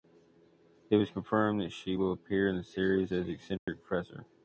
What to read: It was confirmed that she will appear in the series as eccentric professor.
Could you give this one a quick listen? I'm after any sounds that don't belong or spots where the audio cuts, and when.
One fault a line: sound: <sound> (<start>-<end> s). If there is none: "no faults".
sound: dropout (3.6-3.7 s)